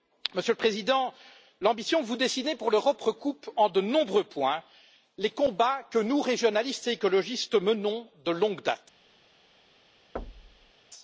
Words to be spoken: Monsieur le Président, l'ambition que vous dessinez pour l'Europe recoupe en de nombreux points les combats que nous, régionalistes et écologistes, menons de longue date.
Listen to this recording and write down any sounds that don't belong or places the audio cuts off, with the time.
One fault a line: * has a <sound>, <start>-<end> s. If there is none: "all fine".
* has a thud, 10.2-10.7 s